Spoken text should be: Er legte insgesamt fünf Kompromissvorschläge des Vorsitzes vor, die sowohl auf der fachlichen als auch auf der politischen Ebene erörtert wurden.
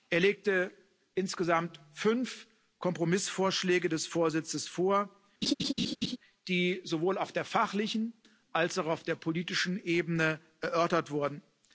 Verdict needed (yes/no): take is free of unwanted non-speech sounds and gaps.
no